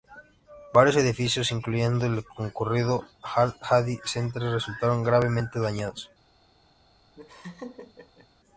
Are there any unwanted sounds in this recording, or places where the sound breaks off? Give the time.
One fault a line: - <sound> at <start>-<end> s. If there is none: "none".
- laugh at 7.1-8.3 s